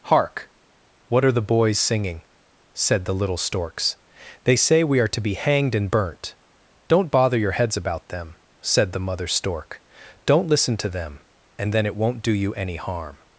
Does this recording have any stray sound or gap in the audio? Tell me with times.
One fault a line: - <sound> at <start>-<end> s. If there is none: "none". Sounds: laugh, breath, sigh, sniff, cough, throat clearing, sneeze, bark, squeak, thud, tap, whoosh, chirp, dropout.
none